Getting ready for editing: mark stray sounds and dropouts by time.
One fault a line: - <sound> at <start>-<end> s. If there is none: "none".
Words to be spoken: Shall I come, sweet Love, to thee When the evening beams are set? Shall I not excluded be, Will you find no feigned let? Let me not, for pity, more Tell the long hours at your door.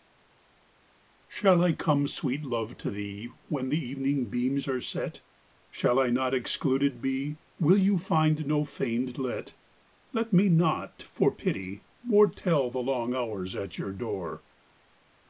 none